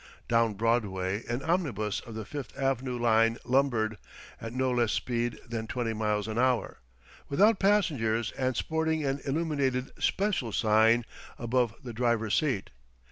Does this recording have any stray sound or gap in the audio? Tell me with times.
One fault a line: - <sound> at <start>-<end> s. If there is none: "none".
none